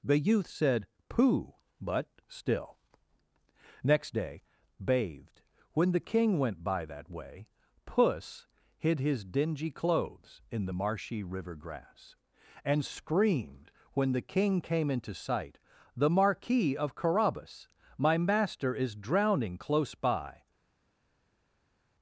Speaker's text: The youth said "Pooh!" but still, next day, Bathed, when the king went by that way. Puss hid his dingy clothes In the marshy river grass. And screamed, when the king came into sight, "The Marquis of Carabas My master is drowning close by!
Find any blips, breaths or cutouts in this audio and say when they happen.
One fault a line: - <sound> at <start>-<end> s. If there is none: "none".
none